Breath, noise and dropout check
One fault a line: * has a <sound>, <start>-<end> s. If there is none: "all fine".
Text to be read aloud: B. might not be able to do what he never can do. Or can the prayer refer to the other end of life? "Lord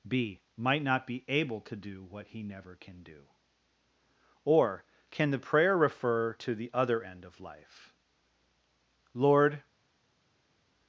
all fine